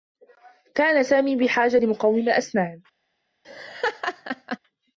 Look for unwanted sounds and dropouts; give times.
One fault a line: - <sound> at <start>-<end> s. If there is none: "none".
- laugh at 3.4-4.6 s